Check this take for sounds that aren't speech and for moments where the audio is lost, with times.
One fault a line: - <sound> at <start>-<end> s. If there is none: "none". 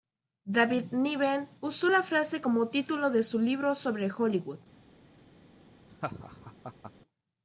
- laugh at 5.9-6.9 s